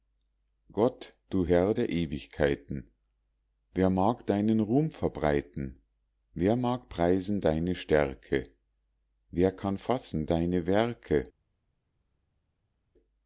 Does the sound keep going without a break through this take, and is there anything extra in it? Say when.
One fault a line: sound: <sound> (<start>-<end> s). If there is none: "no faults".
no faults